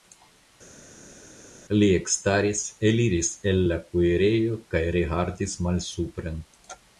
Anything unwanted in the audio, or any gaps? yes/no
no